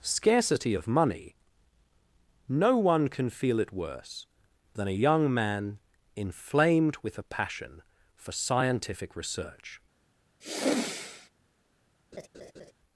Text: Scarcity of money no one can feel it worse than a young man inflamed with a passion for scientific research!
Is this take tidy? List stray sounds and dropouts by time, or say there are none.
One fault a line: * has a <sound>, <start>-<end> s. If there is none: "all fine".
* has a sigh, 10.4-11.3 s
* has a laugh, 12.1-12.7 s